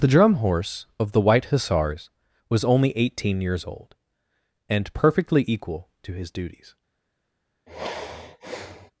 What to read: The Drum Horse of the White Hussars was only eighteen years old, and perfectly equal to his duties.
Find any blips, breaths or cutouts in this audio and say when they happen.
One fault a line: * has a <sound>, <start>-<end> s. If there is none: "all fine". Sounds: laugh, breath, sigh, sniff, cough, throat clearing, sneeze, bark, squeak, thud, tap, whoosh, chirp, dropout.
* has a sigh, 7.7-8.9 s